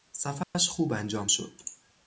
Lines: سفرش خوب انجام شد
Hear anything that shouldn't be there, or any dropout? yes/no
yes